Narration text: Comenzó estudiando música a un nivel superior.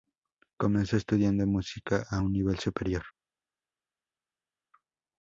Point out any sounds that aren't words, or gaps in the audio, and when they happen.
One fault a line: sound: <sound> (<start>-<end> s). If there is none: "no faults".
no faults